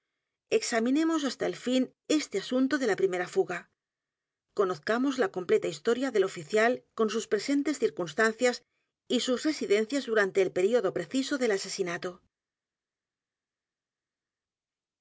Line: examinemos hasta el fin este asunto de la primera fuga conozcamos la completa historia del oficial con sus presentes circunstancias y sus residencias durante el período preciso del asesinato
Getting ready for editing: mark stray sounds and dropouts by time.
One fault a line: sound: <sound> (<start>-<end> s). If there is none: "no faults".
no faults